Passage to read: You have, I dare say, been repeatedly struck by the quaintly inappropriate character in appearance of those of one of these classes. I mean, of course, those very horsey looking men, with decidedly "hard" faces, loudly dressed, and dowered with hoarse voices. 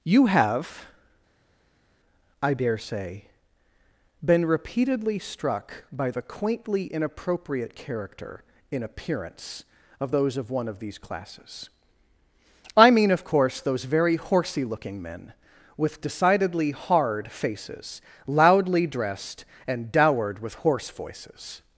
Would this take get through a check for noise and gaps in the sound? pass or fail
pass